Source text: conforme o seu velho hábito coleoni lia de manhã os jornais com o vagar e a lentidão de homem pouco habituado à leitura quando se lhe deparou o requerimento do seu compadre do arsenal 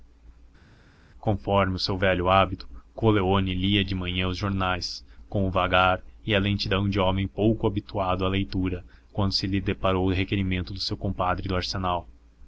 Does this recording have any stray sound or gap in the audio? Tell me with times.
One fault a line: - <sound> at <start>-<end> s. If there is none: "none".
none